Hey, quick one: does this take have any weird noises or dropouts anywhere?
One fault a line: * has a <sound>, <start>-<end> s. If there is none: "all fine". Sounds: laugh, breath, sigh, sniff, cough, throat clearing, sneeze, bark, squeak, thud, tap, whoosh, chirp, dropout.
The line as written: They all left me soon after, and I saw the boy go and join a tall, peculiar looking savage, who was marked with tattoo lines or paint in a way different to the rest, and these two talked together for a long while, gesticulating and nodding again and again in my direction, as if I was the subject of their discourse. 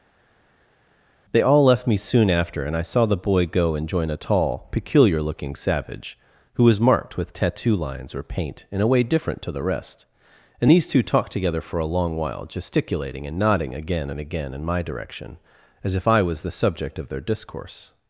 all fine